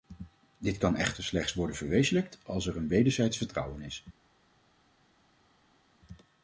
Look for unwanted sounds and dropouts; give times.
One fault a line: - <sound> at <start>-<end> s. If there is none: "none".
none